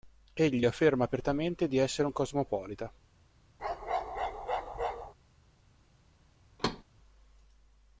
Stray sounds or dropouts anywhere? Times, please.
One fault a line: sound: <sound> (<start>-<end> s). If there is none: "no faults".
sound: bark (3.6-5.1 s)
sound: thud (6.6-6.8 s)